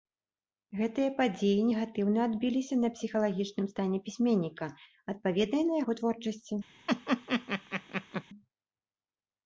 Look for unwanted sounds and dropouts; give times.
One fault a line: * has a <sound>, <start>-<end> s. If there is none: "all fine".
* has a laugh, 6.9-8.2 s